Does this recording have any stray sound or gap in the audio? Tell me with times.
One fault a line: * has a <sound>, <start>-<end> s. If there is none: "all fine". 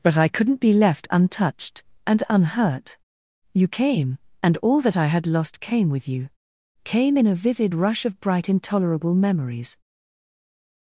all fine